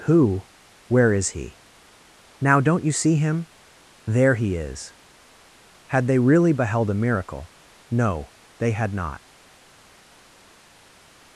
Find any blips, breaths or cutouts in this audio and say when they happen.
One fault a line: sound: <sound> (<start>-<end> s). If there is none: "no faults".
no faults